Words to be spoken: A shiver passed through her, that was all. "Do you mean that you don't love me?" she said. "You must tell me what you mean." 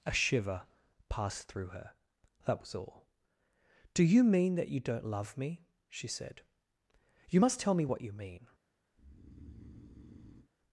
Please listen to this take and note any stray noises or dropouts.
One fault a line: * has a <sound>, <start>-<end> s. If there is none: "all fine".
* has a breath, 8.9-10.5 s